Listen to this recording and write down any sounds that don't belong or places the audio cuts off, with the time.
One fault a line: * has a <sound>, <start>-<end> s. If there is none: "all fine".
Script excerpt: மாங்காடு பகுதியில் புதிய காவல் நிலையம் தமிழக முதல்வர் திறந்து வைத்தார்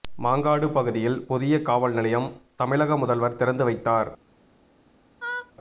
* has a laugh, 5.2-5.5 s